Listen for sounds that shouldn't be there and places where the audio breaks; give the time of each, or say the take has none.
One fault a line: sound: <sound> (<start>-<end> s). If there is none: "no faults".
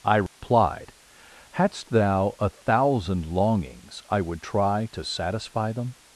sound: dropout (0.3-0.4 s)